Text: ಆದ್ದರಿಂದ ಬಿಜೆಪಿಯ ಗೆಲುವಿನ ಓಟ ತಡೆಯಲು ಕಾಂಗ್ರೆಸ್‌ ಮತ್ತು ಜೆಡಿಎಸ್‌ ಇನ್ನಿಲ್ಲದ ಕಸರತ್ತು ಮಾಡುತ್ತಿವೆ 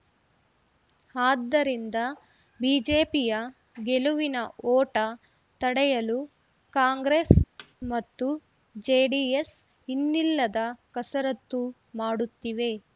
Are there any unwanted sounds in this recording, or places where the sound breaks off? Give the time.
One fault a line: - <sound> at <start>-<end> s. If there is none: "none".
- thud at 7.6-7.7 s